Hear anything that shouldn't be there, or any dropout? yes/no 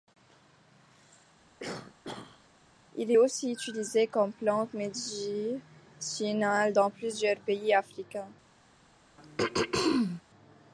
yes